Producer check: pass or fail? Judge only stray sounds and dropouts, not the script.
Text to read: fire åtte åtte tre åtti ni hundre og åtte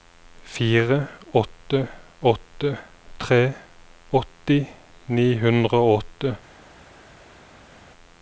pass